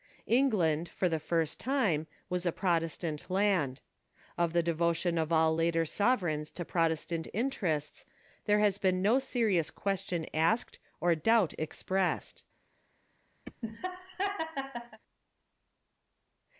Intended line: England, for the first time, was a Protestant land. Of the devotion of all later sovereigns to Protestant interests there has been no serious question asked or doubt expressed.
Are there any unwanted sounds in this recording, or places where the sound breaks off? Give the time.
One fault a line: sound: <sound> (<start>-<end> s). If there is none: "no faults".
sound: laugh (13.4-15.0 s)